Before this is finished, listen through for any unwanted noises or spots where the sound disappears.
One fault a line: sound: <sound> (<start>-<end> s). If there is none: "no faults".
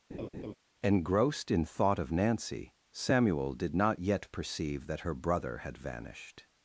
sound: laugh (0.1-0.6 s)